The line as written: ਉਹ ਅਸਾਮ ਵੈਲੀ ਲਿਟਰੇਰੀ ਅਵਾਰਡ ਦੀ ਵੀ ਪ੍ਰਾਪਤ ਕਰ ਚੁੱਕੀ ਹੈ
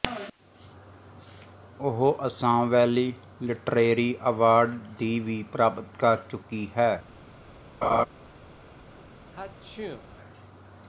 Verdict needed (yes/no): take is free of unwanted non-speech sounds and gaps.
no